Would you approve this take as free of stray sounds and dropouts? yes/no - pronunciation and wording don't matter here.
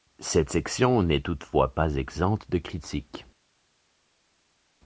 yes